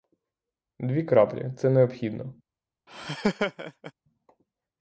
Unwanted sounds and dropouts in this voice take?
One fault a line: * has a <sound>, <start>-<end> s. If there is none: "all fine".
* has a laugh, 2.9-3.9 s